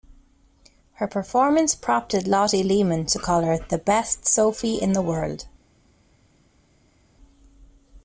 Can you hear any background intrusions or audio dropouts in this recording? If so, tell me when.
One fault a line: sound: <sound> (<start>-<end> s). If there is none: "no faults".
no faults